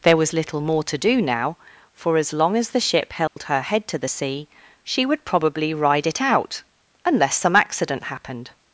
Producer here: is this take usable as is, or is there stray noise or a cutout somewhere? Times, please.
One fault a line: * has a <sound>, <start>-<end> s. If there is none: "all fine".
* has a dropout, 3.3-3.4 s